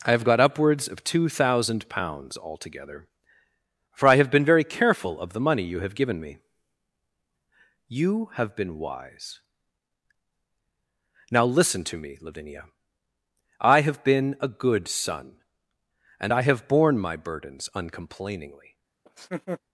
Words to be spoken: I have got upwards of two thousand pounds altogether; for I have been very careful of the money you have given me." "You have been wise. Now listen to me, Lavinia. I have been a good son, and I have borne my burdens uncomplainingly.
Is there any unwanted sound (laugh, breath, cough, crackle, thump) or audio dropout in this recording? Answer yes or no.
yes